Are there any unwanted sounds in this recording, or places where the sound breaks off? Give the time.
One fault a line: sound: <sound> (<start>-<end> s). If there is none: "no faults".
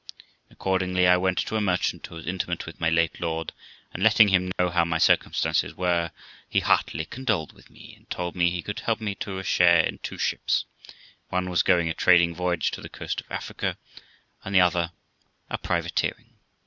sound: dropout (4.5-4.6 s)